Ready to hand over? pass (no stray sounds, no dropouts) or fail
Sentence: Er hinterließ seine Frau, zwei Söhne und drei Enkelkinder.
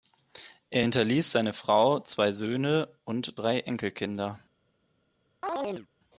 fail